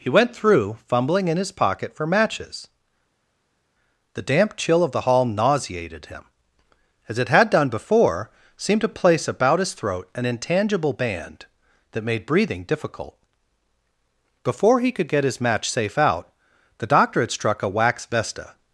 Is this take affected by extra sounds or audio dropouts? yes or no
no